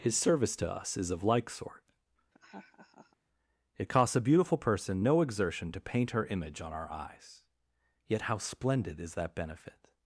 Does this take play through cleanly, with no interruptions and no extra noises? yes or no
no